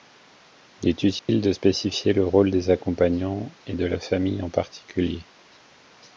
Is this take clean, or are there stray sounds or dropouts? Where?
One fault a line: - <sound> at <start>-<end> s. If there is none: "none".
- dropout at 1.2-1.3 s